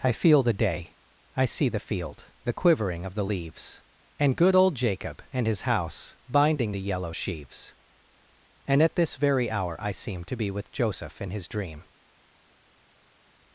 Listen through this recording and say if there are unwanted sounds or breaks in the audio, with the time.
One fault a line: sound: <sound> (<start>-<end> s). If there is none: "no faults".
no faults